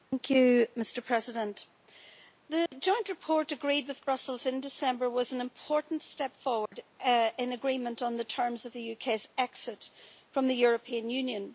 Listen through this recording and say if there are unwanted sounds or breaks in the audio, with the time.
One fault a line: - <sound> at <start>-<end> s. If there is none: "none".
- dropout at 2.7-2.7 s
- dropout at 6.7-6.7 s